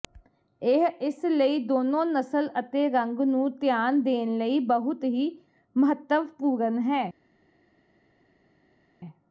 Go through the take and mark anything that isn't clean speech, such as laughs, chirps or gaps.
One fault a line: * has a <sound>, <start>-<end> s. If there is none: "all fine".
all fine